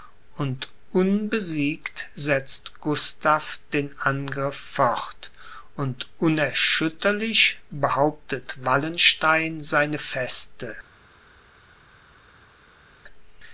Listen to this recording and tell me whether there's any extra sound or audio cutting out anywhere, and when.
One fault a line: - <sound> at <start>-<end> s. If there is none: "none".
none